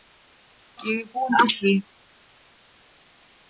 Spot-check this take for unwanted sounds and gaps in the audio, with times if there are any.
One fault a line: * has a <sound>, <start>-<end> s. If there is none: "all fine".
all fine